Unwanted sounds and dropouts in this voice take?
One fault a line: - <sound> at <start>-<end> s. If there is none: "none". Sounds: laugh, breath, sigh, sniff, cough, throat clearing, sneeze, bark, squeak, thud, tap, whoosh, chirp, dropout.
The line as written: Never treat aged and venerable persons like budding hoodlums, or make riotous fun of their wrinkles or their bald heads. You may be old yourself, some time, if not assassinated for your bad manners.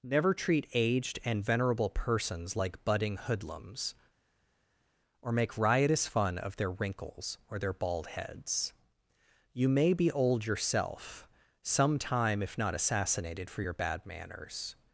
none